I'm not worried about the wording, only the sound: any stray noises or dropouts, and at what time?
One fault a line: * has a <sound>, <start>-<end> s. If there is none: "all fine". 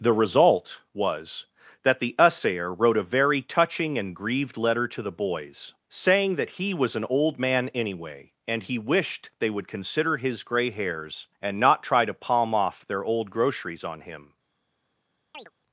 * has a chirp, 15.3-15.5 s